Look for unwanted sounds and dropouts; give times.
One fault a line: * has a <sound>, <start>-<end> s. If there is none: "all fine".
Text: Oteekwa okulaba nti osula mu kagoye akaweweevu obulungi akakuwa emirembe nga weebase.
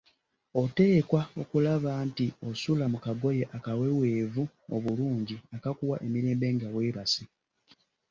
all fine